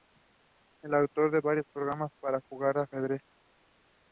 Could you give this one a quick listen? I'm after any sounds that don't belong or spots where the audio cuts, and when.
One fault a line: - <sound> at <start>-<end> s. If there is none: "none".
none